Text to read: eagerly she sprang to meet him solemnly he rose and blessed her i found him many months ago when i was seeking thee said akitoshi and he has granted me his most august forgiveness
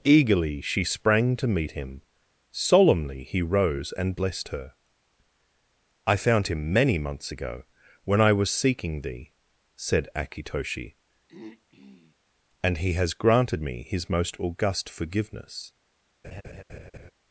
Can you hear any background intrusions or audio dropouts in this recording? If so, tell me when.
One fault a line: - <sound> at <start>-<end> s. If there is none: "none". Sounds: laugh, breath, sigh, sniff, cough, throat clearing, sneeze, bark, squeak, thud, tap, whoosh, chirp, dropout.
- throat clearing at 11.3-12.2 s
- laugh at 16.2-17.1 s